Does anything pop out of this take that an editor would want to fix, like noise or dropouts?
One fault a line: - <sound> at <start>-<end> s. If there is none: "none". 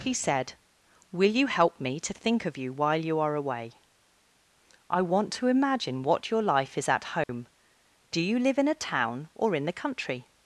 - dropout at 7.2-7.3 s